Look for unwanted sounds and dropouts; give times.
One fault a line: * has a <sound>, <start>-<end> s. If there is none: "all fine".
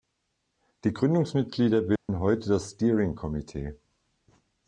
* has a dropout, 2.0-2.1 s